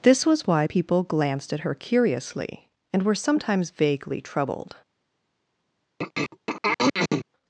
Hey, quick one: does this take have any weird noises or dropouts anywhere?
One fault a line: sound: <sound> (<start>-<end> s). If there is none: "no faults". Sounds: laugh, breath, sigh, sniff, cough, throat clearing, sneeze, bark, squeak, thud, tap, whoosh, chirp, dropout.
sound: throat clearing (6.0-7.3 s)